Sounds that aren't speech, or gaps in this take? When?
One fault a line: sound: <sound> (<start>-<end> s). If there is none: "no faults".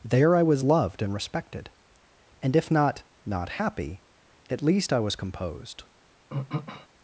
sound: throat clearing (6.3-6.9 s)